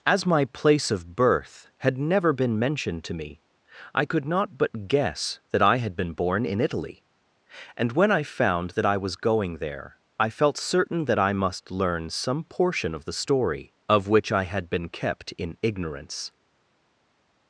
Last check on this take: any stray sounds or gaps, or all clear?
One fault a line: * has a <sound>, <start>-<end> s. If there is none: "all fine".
all fine